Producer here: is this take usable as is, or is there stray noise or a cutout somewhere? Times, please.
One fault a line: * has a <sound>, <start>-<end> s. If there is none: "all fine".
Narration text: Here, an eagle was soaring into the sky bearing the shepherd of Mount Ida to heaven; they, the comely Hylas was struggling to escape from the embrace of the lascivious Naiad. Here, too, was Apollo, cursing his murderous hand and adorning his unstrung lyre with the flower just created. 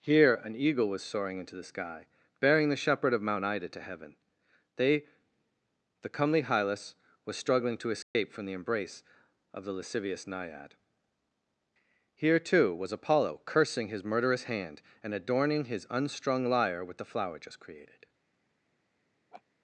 * has a dropout, 8.0-8.2 s
* has a laugh, 19.3-19.4 s